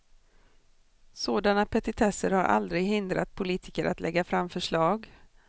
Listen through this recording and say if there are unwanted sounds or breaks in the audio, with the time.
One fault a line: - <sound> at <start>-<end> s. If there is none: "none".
none